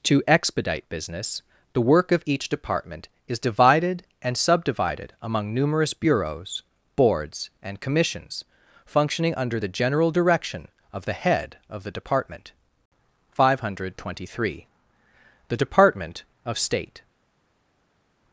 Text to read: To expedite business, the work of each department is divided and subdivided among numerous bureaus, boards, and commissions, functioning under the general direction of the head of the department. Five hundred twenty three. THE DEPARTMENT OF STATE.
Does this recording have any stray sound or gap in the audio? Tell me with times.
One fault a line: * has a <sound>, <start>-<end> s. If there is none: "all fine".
all fine